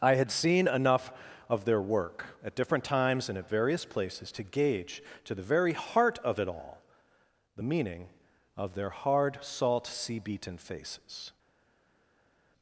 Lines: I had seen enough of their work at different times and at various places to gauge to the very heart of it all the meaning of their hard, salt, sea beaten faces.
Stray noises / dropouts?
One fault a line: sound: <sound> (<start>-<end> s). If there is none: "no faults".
no faults